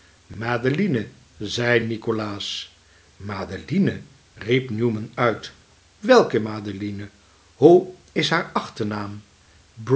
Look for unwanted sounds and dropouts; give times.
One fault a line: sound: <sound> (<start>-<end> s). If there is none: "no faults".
no faults